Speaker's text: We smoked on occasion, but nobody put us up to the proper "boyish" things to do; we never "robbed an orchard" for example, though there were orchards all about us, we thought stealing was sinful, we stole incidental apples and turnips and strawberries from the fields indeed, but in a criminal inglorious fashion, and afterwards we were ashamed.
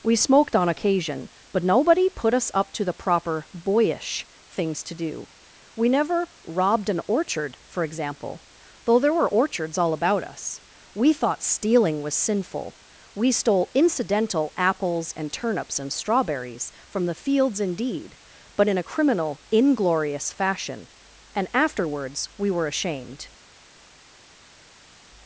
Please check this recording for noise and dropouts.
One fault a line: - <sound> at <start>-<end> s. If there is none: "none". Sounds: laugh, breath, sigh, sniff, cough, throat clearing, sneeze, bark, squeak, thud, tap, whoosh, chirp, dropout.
none